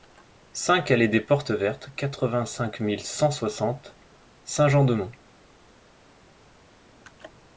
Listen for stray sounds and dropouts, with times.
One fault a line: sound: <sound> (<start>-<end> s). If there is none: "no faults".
no faults